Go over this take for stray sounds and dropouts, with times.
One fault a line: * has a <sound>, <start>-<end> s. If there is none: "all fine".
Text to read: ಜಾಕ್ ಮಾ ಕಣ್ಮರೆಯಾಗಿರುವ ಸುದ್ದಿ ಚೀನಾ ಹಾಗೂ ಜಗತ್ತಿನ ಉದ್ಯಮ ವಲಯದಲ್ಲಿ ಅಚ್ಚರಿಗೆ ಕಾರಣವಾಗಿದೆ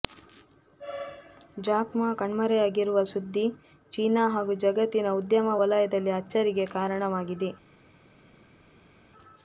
all fine